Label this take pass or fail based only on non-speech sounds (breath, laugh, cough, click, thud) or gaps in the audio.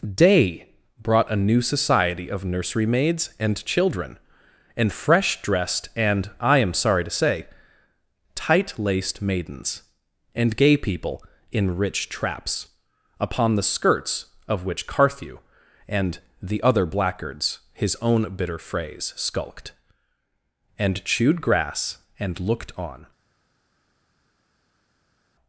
pass